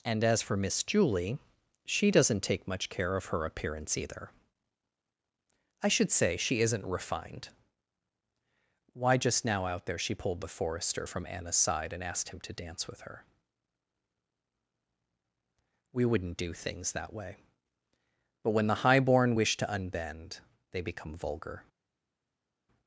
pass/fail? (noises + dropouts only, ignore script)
pass